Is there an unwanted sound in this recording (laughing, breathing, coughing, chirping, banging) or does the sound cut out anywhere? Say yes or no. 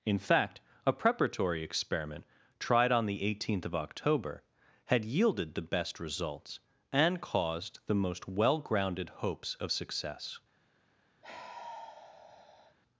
yes